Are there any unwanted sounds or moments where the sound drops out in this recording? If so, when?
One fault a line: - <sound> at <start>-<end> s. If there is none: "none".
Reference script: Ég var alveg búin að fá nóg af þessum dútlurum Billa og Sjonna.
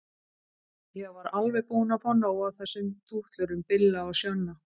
none